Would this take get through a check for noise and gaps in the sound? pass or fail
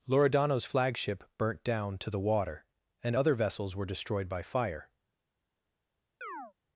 fail